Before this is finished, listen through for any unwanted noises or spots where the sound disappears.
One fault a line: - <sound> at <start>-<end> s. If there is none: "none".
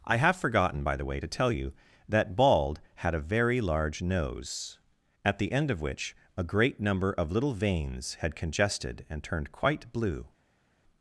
none